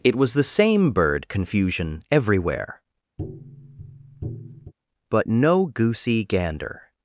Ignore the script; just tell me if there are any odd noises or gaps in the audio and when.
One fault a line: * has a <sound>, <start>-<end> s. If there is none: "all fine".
* has a tap, 3.2-4.7 s